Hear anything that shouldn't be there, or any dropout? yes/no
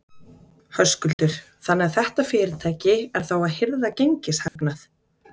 yes